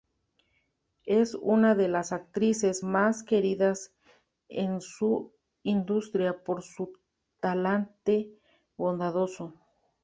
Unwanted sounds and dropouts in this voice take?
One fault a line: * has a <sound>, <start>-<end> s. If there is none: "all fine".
all fine